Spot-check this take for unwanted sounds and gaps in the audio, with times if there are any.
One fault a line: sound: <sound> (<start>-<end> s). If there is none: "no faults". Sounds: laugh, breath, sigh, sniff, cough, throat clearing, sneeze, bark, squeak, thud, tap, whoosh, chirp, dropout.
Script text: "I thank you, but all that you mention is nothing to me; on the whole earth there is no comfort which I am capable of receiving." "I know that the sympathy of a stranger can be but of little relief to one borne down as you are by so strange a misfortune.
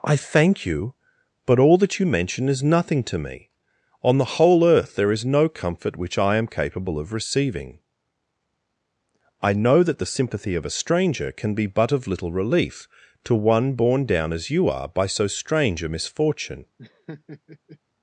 sound: laugh (16.8-17.8 s)